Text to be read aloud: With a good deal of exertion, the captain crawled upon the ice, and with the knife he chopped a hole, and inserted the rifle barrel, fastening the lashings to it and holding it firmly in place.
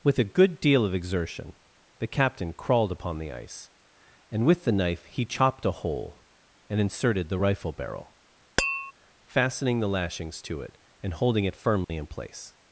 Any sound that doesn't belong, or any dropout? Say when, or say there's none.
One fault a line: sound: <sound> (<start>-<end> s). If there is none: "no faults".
sound: tap (8.6-8.9 s)
sound: dropout (11.8-11.9 s)